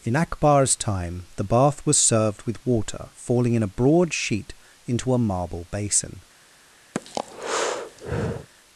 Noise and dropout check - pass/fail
fail